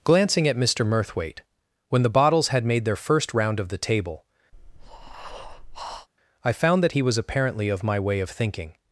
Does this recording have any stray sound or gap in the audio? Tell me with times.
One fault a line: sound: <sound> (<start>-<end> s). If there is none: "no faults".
sound: breath (4.5-6.1 s)